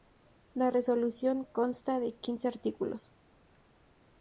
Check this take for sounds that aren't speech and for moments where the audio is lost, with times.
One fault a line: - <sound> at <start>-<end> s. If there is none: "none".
none